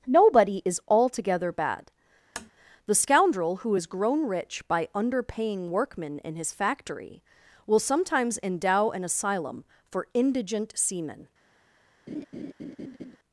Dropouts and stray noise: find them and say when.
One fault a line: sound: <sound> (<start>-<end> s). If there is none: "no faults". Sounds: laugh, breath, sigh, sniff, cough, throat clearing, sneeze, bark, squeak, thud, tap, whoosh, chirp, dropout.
sound: tap (2.4-2.5 s)
sound: laugh (12.1-13.2 s)